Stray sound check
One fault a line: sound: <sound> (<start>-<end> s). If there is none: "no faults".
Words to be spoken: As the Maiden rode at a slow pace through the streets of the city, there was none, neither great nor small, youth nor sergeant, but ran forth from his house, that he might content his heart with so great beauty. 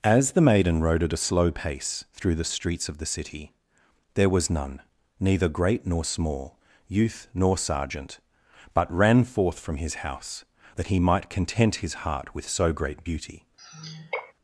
sound: sigh (13.6-14.3 s)